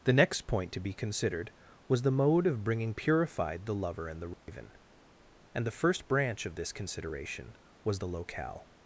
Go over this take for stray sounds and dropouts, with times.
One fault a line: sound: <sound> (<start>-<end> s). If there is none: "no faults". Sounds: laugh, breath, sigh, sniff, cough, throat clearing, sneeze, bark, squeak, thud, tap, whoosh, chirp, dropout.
sound: dropout (4.3-4.5 s)